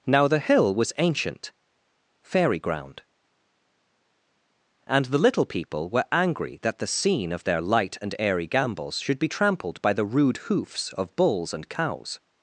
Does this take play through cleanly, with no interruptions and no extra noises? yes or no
yes